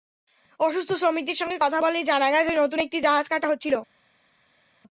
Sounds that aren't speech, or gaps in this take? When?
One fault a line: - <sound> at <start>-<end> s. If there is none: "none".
none